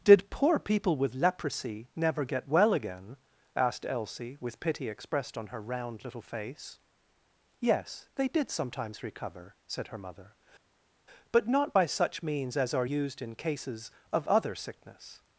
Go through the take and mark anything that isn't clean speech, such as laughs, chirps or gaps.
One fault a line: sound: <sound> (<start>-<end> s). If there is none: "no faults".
no faults